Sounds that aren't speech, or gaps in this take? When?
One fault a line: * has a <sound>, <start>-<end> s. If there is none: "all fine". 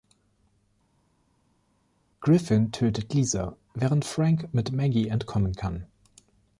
all fine